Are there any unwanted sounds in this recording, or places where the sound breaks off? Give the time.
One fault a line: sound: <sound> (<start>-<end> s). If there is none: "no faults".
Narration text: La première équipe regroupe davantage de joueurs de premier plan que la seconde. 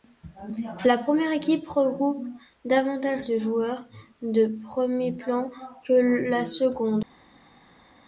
no faults